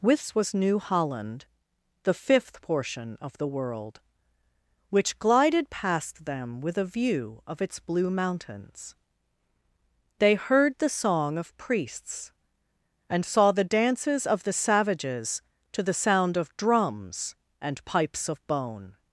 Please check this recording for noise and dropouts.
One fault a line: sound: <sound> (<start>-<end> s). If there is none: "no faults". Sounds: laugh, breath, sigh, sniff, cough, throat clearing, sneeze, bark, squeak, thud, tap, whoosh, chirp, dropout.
no faults